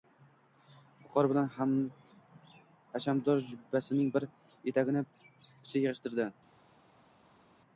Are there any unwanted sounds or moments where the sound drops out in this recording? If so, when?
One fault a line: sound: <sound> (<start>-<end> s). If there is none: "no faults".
no faults